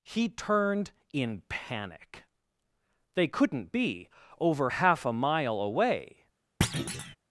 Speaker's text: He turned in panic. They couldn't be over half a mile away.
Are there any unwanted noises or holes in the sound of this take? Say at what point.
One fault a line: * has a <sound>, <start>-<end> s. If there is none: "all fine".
* has a thud, 6.6-7.2 s